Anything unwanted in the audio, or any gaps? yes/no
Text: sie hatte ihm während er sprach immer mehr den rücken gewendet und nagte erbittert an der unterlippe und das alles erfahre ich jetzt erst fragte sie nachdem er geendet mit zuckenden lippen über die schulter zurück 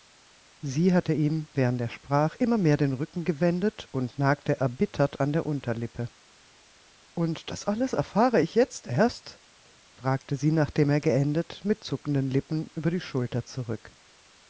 no